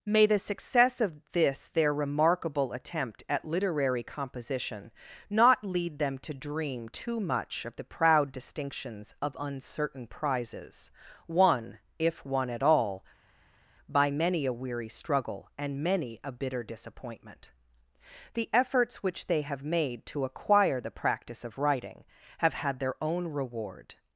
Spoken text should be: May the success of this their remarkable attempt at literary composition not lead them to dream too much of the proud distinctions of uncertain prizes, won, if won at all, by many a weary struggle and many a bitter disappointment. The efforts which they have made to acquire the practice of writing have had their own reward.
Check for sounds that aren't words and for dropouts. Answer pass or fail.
pass